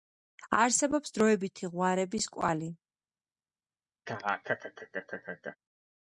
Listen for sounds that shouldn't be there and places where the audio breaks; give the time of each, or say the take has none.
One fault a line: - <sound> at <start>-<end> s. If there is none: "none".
- laugh at 4.1-5.6 s